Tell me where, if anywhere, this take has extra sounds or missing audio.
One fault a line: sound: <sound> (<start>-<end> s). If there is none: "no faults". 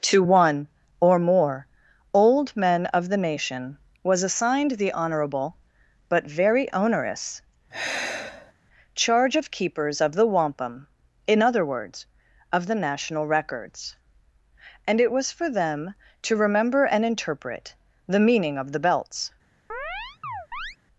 sound: sigh (7.7-8.5 s)
sound: chirp (19.7-20.8 s)